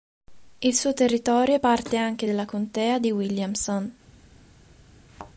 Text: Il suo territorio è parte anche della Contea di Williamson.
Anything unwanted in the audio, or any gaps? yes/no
yes